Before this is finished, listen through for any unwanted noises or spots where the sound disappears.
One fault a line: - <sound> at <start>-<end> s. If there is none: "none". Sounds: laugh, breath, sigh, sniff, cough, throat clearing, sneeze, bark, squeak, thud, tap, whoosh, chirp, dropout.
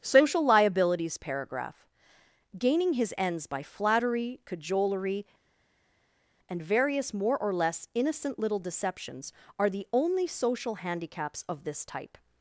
none